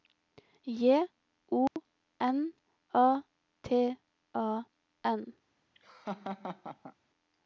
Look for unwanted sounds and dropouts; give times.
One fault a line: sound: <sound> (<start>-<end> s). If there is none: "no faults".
sound: dropout (1.7-1.8 s)
sound: laugh (5.7-6.9 s)